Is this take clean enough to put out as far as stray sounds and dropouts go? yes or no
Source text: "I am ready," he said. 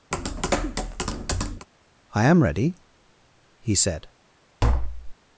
no